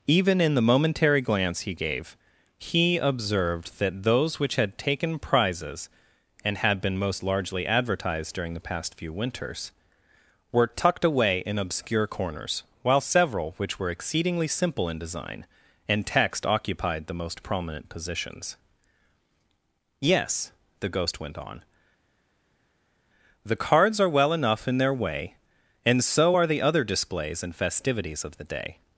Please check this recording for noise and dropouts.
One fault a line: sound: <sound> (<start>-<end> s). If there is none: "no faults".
no faults